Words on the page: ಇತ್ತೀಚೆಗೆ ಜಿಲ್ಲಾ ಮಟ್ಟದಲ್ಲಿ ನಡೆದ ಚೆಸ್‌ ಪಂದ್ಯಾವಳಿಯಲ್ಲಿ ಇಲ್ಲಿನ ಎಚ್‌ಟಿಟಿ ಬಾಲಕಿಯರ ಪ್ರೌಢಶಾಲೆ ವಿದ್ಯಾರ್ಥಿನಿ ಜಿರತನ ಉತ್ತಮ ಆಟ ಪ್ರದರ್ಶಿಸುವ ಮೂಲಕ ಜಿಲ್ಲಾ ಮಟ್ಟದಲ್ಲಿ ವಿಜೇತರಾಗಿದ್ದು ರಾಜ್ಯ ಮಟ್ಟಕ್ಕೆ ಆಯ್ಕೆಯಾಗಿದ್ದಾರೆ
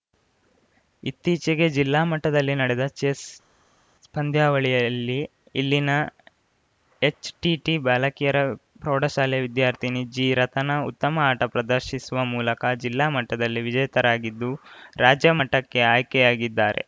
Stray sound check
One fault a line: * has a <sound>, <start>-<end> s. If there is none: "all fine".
all fine